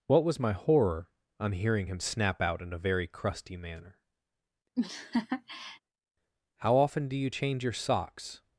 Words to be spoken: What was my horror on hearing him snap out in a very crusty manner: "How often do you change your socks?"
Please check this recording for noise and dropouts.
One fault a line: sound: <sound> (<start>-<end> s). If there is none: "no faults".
sound: laugh (4.8-5.8 s)